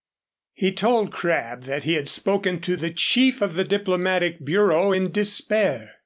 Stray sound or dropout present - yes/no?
no